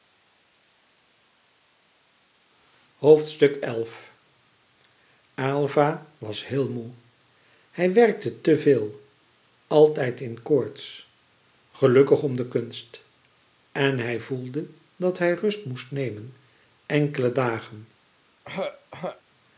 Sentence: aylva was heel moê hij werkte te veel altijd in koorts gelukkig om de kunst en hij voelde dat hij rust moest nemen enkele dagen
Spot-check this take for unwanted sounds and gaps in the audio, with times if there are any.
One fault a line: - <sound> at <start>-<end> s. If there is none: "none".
- throat clearing at 18.4-19.2 s